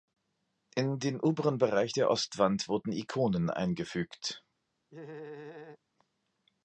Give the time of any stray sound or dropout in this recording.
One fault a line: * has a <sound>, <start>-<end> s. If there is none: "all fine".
* has a laugh, 4.9-5.8 s